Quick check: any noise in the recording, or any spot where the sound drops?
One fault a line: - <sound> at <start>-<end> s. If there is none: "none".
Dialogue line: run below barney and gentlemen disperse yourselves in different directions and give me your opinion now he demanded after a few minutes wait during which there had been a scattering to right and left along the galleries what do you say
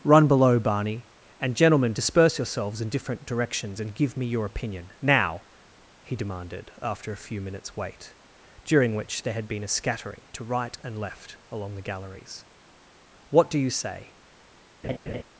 - laugh at 14.8-15.2 s